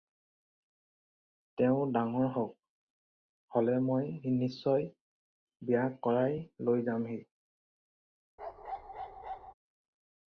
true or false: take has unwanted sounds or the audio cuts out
true